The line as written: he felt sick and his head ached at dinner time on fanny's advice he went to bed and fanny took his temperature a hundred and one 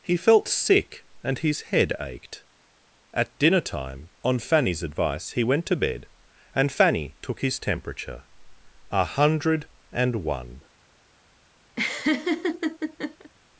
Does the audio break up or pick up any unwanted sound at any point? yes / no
yes